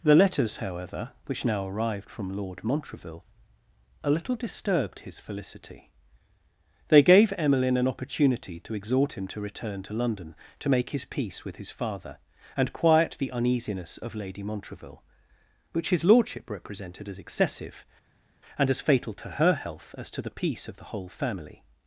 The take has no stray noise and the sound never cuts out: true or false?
true